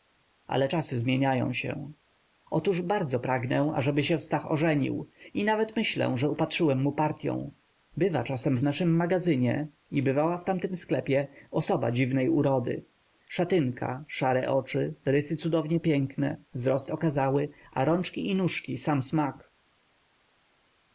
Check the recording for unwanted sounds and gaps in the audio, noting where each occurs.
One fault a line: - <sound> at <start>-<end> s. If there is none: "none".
none